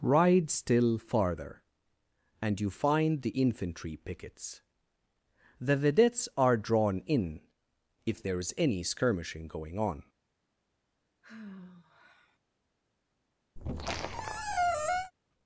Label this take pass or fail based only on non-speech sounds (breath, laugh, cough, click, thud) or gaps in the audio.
fail